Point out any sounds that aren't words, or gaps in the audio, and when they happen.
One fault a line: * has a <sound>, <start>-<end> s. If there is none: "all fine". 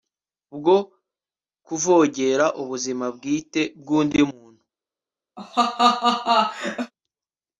* has a laugh, 5.4-6.9 s